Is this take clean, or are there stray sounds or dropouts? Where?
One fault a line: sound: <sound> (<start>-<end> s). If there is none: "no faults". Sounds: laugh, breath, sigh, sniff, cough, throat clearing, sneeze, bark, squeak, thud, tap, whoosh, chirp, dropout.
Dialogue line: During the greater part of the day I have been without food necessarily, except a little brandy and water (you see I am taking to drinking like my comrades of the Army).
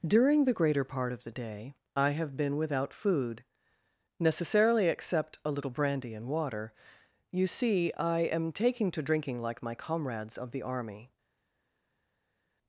no faults